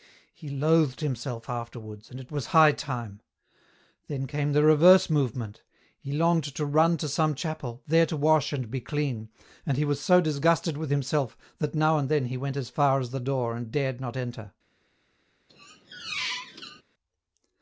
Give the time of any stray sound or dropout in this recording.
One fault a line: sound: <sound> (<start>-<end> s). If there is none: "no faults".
sound: squeak (15.5-16.8 s)